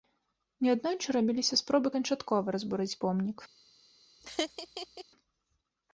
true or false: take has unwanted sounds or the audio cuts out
true